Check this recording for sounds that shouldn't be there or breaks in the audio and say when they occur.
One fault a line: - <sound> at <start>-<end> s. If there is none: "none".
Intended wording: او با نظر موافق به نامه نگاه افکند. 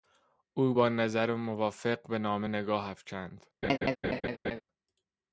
- laugh at 3.6-4.6 s